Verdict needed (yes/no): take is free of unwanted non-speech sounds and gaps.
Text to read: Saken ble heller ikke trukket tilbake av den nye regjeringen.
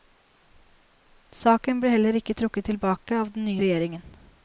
yes